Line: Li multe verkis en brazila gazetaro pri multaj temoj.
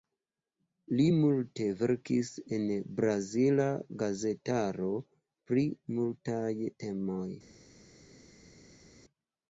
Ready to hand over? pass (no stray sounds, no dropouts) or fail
pass